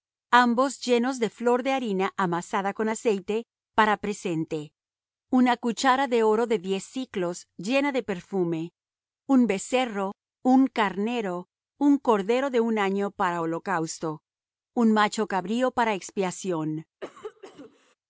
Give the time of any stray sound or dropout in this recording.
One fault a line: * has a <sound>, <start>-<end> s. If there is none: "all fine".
* has a cough, 17.0-17.9 s